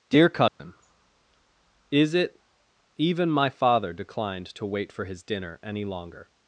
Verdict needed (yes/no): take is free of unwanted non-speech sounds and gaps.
no